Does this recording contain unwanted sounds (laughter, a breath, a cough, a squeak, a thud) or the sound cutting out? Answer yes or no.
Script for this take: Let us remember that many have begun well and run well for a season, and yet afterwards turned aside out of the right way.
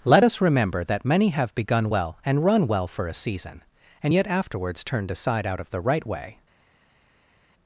no